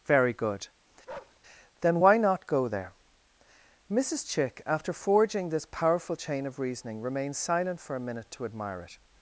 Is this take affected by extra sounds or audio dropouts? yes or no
yes